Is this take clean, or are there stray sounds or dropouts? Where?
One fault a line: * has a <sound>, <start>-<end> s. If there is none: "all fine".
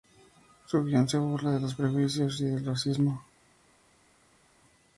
all fine